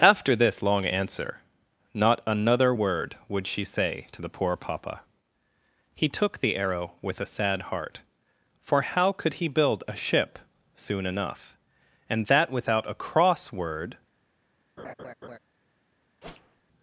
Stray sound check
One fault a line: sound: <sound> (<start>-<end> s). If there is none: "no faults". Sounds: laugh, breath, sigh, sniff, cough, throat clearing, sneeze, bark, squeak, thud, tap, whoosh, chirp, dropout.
sound: laugh (14.8-15.4 s)
sound: whoosh (16.2-16.6 s)